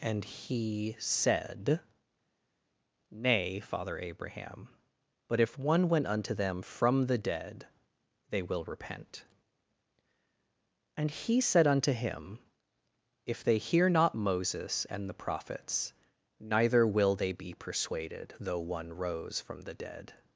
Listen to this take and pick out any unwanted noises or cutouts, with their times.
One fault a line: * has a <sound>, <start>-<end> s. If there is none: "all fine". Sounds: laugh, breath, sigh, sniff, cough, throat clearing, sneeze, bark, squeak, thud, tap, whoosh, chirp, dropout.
all fine